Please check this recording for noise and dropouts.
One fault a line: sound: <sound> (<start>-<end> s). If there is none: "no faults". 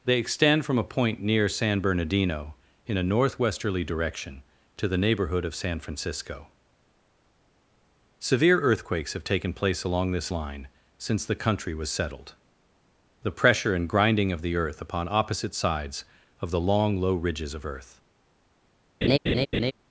sound: laugh (19.0-19.7 s)